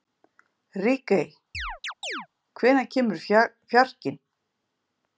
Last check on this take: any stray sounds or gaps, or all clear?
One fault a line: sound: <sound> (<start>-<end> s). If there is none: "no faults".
sound: chirp (1.5-2.3 s)